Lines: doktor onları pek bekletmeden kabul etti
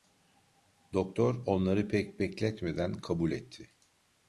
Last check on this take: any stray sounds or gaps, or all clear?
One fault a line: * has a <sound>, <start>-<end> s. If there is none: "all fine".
all fine